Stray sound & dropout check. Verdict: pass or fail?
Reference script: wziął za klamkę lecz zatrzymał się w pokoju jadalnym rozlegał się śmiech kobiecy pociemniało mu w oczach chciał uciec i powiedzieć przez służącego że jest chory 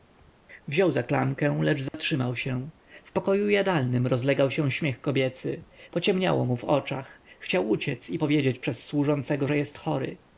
fail